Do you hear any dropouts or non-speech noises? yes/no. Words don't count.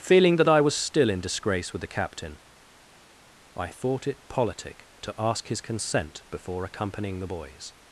no